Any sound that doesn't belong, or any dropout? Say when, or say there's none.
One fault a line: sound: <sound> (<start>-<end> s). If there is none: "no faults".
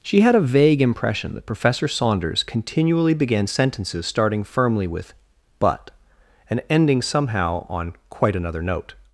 no faults